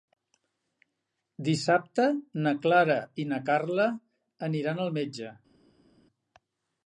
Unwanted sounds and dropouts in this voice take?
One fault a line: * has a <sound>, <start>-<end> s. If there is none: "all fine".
all fine